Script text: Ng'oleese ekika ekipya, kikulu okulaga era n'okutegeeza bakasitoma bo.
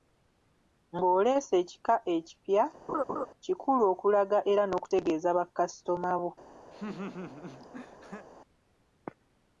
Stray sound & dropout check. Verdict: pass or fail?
fail